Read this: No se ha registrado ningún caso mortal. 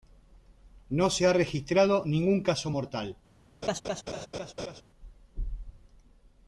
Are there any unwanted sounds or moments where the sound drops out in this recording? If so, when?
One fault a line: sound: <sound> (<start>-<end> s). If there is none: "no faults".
sound: laugh (3.6-4.8 s)